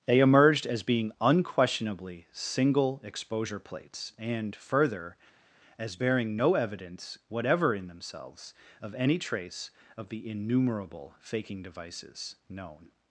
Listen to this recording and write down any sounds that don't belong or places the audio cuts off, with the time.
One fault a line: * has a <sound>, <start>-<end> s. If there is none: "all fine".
all fine